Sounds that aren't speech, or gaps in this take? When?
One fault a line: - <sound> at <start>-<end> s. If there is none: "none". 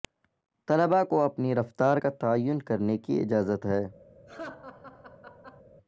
- laugh at 4.3-5.6 s